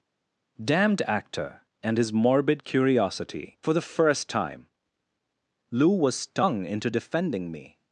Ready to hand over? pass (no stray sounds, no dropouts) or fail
pass